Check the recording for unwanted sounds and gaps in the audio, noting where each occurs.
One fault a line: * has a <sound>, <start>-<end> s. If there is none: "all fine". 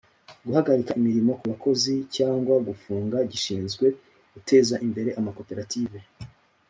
all fine